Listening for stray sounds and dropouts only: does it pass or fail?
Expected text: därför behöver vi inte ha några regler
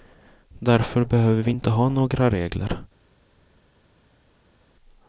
pass